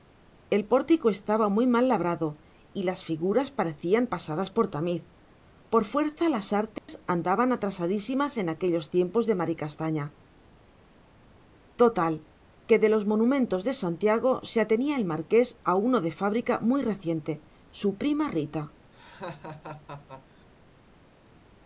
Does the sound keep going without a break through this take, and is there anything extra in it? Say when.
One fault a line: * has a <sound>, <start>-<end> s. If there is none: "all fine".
* has a dropout, 6.8-6.9 s
* has a laugh, 18.9-20.5 s